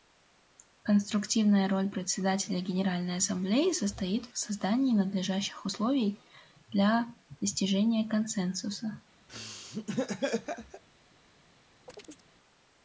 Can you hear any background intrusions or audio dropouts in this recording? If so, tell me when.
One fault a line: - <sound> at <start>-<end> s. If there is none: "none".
- laugh at 9.3-10.8 s
- chirp at 11.9-12.3 s